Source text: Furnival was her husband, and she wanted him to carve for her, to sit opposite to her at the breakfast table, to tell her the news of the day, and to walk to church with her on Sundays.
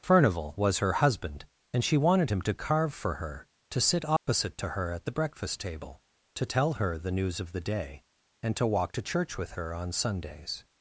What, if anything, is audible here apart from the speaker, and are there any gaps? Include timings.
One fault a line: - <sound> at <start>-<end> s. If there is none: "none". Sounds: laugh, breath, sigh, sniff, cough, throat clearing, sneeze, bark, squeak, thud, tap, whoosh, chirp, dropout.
- dropout at 4.2-4.3 s